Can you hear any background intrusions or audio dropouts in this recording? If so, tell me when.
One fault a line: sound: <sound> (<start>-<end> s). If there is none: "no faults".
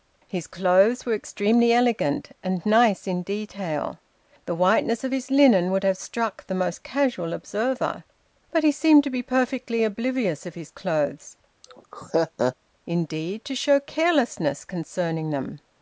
sound: laugh (11.6-12.6 s)